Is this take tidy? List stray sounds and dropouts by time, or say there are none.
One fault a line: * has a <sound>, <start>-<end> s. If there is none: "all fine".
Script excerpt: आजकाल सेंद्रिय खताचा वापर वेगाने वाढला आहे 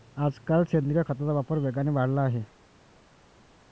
all fine